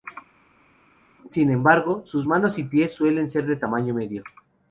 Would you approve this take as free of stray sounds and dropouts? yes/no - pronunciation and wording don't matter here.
yes